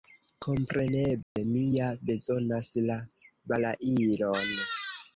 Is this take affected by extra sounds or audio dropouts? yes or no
yes